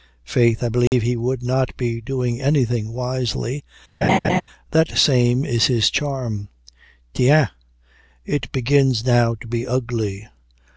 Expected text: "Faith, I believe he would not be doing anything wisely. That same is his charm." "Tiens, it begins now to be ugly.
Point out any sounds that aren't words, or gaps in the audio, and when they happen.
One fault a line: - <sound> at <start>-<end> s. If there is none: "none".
- dropout at 0.9-0.9 s
- laugh at 4.0-4.4 s